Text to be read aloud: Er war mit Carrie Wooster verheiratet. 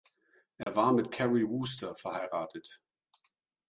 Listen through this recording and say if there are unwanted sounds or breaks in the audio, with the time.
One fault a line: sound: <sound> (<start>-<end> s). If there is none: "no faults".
sound: dropout (0.6-0.7 s)